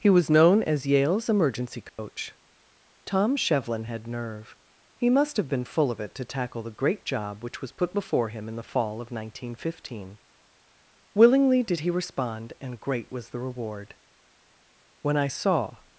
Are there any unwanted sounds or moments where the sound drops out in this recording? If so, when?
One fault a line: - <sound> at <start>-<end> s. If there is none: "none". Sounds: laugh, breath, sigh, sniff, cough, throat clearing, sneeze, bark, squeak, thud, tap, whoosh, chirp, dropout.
- dropout at 1.9-2.0 s